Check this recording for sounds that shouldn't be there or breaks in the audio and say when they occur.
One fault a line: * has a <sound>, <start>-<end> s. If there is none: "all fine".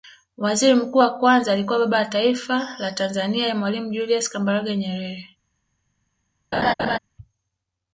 * has a laugh, 6.5-7.0 s